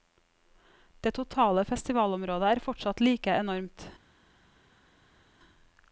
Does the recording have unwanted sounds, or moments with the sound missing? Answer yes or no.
no